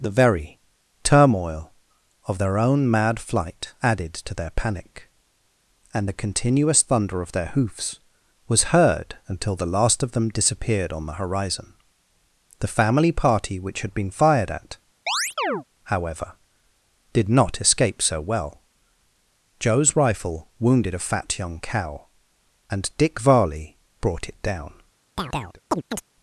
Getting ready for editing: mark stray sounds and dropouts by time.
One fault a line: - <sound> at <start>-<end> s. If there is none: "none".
- chirp at 15.1-15.6 s
- chirp at 25.2-26.0 s